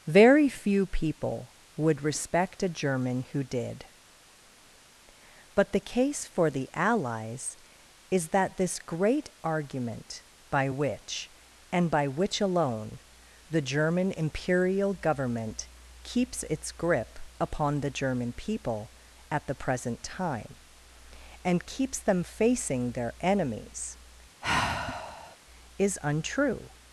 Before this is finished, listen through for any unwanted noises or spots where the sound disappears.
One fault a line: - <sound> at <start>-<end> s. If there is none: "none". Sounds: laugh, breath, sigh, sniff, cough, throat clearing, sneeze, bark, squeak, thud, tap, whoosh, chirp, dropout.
- sigh at 24.4-25.4 s